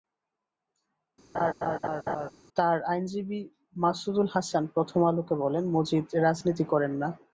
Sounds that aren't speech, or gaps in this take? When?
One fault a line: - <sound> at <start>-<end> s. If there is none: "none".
- laugh at 1.3-2.3 s